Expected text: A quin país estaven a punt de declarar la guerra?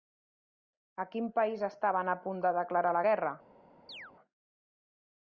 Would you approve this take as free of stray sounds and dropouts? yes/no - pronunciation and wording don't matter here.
no